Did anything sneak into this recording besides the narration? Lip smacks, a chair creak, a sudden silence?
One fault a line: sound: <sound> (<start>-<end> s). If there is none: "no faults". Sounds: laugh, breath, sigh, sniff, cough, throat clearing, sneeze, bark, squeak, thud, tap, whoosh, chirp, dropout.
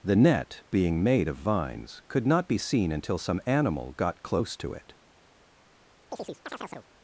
sound: chirp (6.1-6.9 s)